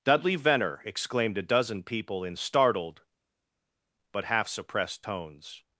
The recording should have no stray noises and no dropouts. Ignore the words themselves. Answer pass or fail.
pass